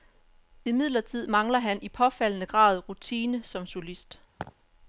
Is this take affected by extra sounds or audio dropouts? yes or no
yes